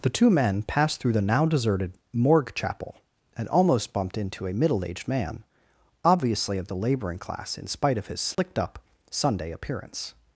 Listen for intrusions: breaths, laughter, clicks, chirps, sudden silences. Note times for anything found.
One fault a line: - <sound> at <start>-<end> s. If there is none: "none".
- dropout at 8.3-8.4 s